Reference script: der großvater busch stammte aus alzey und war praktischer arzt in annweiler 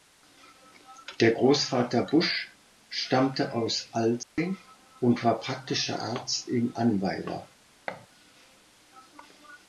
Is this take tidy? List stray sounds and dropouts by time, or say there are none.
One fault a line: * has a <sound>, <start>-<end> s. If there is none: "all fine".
* has a dropout, 4.2-4.4 s
* has a thud, 7.9-8.1 s